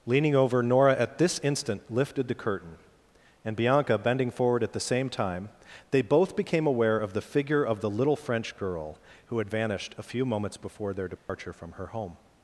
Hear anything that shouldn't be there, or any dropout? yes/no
yes